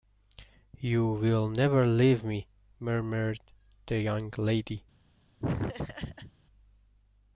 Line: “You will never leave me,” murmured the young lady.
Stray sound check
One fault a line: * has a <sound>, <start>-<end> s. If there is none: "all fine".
* has a laugh, 5.4-6.3 s